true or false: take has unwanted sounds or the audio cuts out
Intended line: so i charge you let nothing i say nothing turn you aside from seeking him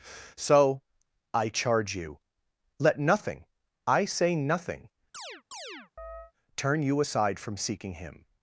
true